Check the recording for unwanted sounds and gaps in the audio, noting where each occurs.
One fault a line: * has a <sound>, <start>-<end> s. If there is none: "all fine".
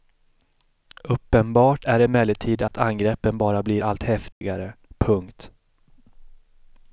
* has a dropout, 2.7-2.7 s
* has a dropout, 4.3-4.4 s